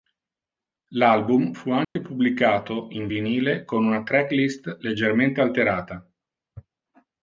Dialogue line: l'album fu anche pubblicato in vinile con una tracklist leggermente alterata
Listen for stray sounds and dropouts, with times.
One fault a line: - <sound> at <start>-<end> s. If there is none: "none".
- dropout at 1.8-2.0 s